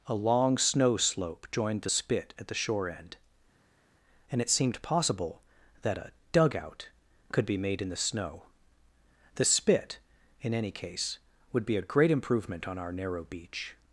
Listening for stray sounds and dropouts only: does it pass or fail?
pass